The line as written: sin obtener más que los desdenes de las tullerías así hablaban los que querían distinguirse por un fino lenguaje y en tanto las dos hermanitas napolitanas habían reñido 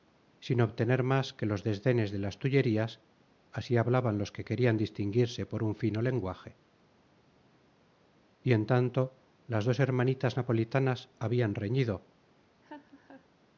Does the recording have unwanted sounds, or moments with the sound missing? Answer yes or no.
yes